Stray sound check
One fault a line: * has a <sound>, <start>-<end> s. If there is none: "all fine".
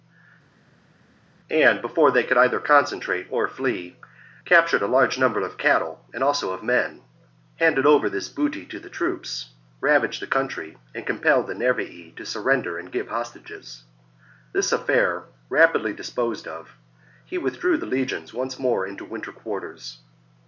all fine